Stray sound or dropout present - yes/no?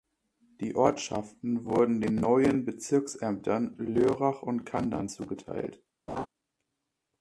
yes